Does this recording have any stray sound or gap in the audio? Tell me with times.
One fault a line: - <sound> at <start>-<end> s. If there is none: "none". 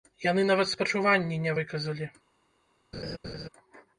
- laugh at 2.9-3.5 s